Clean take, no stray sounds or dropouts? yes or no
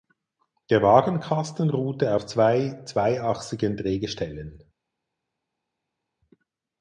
yes